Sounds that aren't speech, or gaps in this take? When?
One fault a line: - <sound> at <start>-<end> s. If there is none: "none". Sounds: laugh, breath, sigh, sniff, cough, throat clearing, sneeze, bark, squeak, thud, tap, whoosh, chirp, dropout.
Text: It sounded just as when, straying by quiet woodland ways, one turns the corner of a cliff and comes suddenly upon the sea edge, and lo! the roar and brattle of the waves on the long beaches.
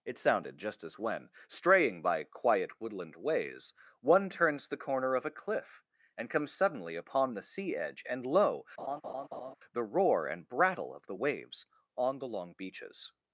- laugh at 8.8-9.6 s